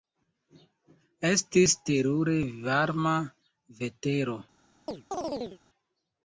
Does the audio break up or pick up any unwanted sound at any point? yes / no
yes